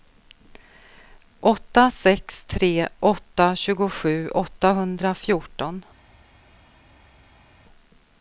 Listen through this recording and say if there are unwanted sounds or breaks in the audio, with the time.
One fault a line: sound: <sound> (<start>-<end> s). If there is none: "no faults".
no faults